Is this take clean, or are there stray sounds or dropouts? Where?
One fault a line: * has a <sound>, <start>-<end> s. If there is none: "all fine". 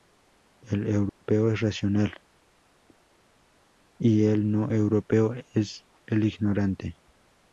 * has a dropout, 1.1-1.2 s